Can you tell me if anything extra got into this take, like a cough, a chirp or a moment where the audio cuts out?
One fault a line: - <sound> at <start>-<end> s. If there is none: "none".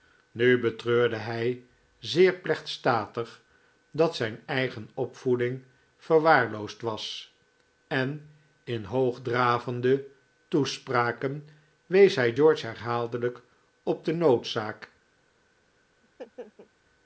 - laugh at 16.0-16.7 s